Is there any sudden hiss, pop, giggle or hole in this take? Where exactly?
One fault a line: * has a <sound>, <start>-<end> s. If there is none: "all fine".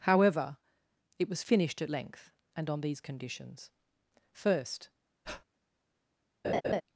* has a breath, 5.2-5.4 s
* has a laugh, 6.4-6.8 s